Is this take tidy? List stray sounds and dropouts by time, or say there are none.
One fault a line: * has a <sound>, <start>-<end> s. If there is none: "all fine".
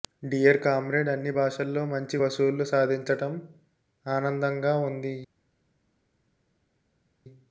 all fine